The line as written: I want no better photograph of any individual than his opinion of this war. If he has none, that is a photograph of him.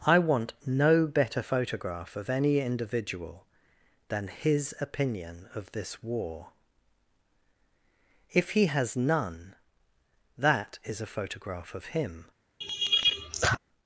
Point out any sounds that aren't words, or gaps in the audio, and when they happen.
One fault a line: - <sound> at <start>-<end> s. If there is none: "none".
- laugh at 12.6-13.6 s